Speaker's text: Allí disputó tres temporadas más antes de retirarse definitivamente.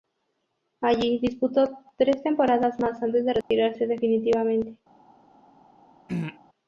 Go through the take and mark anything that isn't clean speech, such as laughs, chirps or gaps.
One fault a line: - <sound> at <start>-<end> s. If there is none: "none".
- dropout at 3.4-3.5 s
- throat clearing at 6.1-6.4 s